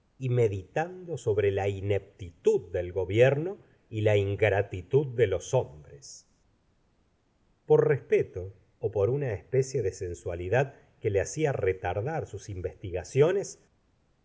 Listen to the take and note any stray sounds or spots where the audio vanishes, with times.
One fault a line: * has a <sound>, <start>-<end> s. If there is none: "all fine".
all fine